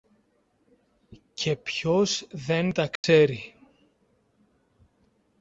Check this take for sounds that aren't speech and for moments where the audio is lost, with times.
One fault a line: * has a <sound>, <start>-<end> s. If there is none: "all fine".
* has a dropout, 3.0-3.0 s